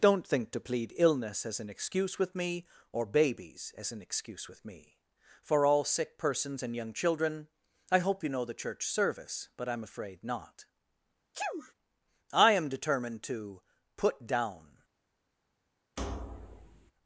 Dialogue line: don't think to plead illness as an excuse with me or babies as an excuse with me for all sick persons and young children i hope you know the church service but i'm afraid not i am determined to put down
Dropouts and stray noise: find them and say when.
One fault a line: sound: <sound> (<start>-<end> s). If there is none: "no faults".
sound: sneeze (11.3-11.7 s)
sound: thud (16.0-16.9 s)